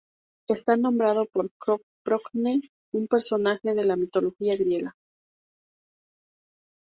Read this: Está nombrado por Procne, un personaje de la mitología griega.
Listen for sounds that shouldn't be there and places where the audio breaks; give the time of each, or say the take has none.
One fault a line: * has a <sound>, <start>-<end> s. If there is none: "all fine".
all fine